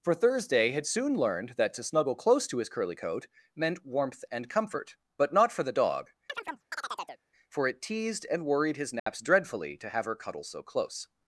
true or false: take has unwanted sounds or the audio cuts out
true